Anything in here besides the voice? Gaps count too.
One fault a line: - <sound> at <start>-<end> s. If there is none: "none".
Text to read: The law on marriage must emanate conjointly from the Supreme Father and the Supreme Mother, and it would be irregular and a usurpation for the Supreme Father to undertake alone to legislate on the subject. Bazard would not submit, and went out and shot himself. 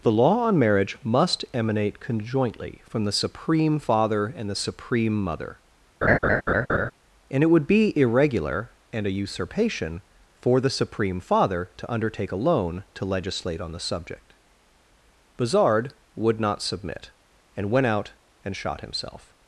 - laugh at 6.0-6.9 s